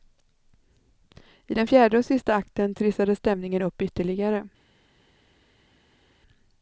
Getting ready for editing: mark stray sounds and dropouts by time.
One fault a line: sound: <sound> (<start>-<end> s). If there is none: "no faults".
no faults